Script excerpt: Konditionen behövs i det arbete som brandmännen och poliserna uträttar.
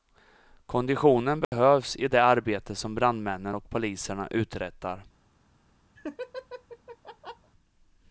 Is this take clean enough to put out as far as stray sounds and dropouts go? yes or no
no